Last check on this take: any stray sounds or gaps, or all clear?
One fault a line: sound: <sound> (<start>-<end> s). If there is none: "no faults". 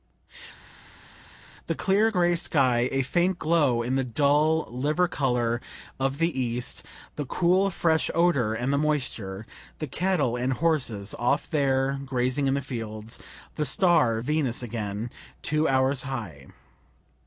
no faults